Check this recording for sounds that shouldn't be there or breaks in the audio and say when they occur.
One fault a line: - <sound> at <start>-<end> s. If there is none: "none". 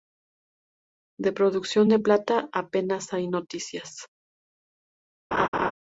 - laugh at 5.3-5.7 s